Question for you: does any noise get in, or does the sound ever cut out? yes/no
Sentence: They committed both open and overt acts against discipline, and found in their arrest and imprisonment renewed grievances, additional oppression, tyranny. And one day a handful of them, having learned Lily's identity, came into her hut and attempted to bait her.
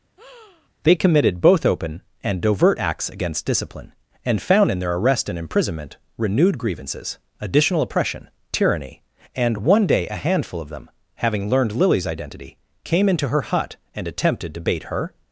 yes